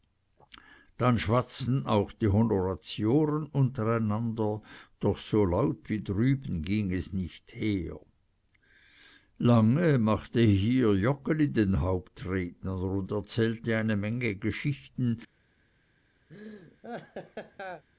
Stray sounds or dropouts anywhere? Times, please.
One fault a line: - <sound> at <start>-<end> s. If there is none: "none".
- laugh at 16.3-17.8 s